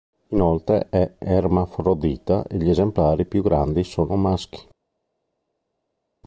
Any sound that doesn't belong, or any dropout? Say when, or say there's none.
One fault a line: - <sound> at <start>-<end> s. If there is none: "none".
none